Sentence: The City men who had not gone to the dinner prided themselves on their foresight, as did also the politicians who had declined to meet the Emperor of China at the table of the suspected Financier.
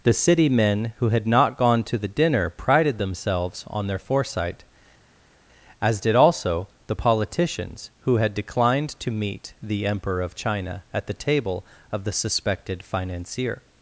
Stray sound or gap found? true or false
false